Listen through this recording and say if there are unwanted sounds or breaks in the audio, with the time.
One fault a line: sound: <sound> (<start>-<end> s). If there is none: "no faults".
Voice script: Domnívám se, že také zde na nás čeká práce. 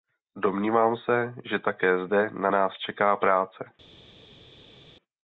no faults